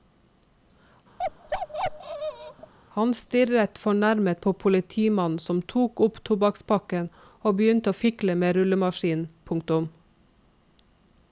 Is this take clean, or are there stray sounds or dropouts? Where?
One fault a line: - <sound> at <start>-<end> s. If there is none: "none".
- bark at 1.2-2.7 s